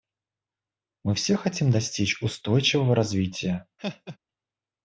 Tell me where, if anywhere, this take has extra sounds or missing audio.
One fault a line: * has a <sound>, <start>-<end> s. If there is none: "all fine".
* has a laugh, 3.8-4.2 s